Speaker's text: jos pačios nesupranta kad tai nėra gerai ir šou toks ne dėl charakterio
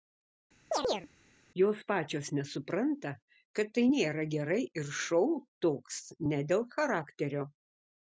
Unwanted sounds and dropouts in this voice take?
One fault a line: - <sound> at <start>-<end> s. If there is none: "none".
- chirp at 0.7-1.1 s